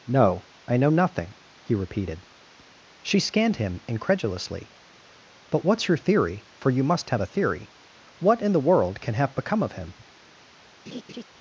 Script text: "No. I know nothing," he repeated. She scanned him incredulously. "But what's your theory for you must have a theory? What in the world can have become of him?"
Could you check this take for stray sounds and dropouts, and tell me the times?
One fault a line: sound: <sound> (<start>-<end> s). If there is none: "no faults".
sound: laugh (10.9-11.2 s)